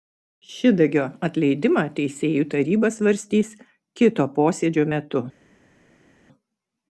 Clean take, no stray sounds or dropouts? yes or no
yes